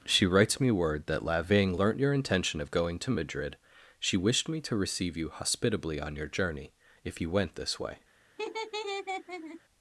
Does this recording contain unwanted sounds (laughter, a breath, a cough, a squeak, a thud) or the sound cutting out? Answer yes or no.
yes